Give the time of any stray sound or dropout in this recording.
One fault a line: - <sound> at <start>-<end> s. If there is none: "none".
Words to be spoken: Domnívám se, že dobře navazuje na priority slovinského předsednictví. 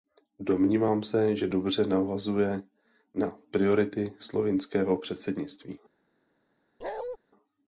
- bark at 6.8-7.2 s